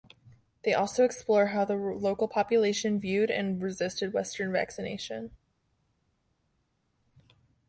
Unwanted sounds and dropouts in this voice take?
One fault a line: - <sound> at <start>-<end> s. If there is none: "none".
none